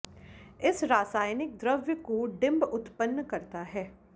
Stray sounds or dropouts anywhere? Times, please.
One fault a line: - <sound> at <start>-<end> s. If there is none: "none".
none